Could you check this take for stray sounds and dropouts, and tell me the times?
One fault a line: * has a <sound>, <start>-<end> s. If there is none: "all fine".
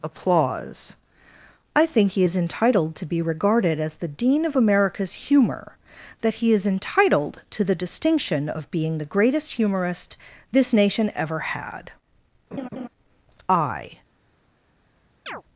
* has a laugh, 12.5-12.9 s
* has a chirp, 15.3-15.4 s